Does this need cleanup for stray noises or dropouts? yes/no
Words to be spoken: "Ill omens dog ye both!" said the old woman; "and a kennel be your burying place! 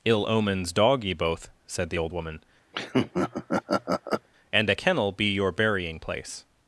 yes